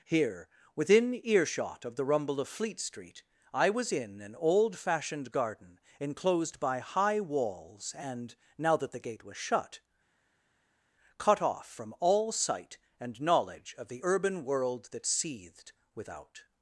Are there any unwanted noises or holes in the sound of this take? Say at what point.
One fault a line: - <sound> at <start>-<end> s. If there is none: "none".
none